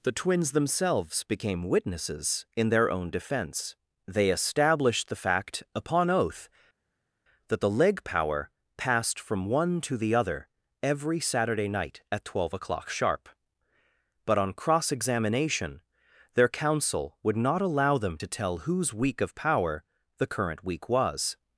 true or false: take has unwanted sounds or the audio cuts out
false